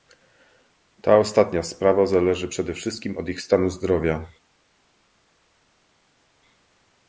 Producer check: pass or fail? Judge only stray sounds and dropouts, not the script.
pass